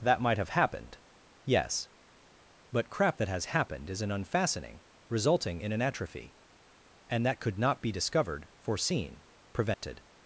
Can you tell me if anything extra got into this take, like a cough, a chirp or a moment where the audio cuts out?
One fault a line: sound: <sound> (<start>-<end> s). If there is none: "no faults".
sound: dropout (9.7-9.8 s)